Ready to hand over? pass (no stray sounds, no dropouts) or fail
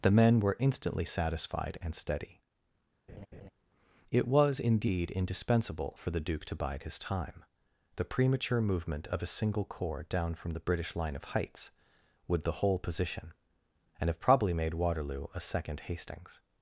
fail